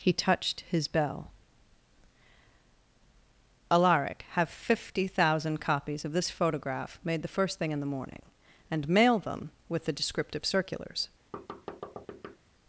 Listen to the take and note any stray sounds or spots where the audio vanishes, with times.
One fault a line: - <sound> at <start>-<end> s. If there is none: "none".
- thud at 11.3-12.4 s